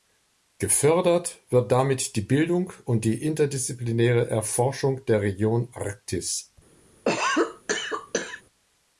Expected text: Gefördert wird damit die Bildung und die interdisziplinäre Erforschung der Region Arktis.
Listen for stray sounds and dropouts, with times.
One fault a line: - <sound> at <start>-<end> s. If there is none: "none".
- cough at 7.0-8.4 s